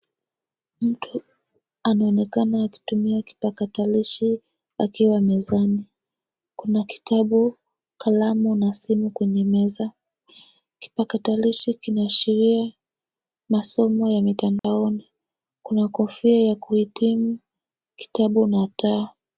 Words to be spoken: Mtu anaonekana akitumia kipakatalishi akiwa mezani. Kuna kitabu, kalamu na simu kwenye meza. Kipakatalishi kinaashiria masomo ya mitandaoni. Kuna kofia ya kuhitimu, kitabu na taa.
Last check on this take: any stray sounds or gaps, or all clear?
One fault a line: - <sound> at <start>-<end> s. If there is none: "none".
- dropout at 14.6-14.6 s